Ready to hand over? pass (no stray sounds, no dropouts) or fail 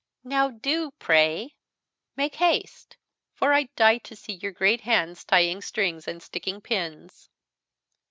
pass